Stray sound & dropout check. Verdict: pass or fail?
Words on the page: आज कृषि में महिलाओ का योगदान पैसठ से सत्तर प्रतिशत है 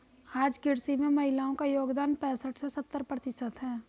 pass